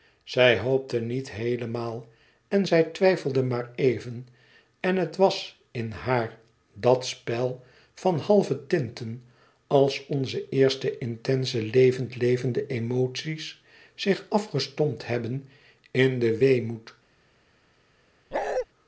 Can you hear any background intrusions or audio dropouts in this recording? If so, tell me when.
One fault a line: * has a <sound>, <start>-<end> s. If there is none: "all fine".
* has a bark, 18.3-18.7 s